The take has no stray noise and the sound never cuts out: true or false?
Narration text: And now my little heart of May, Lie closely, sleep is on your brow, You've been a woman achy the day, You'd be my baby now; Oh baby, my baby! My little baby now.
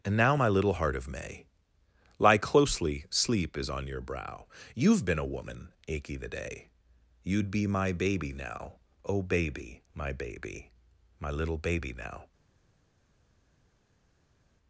true